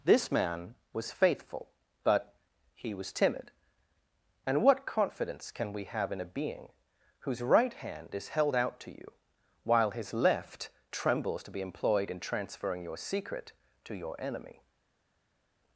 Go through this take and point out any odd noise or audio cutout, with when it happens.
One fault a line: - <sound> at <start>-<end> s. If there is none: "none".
none